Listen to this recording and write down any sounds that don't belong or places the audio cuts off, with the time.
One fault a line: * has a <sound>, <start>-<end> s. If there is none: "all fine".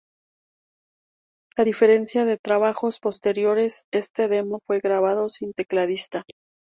all fine